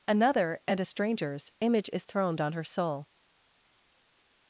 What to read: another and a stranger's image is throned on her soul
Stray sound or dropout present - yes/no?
no